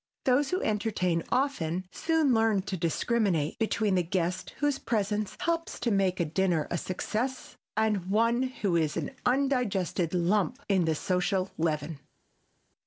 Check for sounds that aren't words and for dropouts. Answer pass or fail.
pass